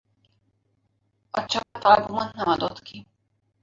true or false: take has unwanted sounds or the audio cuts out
true